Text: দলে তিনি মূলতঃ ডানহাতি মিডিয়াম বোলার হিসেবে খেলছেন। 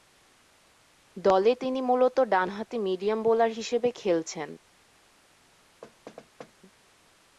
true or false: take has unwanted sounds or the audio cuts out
true